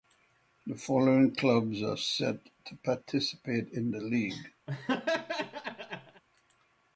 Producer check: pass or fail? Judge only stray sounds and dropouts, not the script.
fail